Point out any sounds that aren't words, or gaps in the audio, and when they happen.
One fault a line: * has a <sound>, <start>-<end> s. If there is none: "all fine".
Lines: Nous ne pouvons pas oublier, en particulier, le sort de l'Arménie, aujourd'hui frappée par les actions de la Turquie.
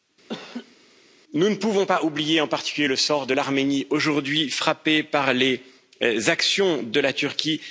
* has a laugh, 0.3-0.8 s